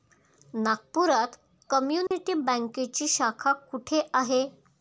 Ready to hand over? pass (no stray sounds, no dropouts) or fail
fail